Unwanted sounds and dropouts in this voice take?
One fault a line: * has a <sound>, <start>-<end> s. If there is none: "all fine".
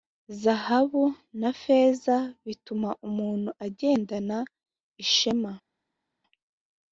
all fine